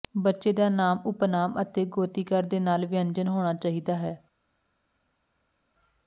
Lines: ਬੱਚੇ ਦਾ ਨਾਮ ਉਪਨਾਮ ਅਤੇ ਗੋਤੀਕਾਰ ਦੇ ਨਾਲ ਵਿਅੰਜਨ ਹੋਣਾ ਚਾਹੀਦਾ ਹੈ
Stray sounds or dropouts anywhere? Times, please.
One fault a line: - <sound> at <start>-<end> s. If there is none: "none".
none